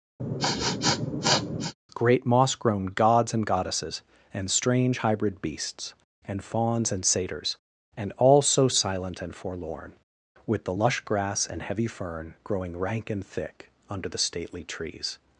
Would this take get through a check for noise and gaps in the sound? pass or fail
fail